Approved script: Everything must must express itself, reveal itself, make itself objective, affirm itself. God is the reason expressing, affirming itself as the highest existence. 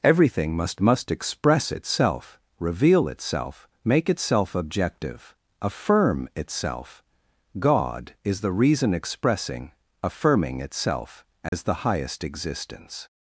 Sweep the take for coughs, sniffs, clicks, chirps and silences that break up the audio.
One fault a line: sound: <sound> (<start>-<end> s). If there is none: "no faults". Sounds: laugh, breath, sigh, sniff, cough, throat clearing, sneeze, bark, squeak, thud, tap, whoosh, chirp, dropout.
sound: dropout (11.5-11.5 s)